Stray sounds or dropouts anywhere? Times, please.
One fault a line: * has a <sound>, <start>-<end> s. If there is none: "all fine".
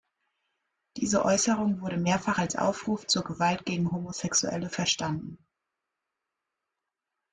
all fine